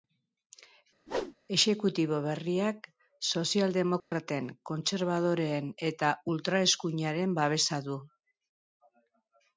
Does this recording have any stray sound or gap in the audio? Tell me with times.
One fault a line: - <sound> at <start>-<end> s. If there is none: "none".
- whoosh at 1.1-1.4 s
- dropout at 4.0-4.1 s